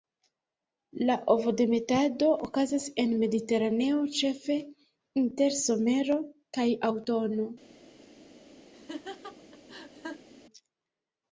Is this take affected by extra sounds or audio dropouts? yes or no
yes